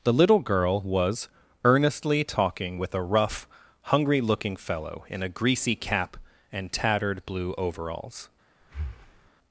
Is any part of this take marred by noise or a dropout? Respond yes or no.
yes